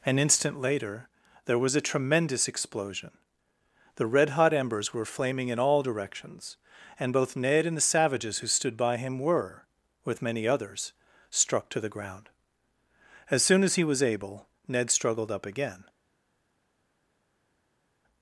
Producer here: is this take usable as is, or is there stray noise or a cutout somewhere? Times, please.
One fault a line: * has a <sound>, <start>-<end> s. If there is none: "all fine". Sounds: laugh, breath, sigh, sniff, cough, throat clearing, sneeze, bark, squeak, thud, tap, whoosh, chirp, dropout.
all fine